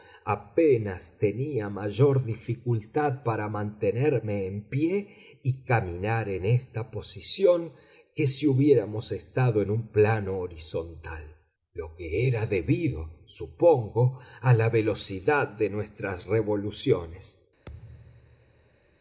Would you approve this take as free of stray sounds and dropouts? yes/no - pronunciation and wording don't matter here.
no